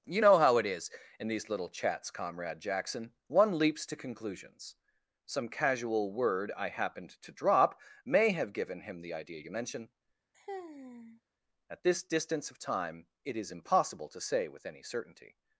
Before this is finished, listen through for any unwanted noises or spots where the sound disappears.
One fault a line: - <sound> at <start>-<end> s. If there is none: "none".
- sigh at 10.3-11.2 s